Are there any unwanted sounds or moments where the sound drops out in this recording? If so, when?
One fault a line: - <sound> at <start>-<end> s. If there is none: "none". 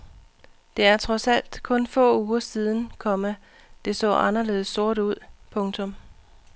none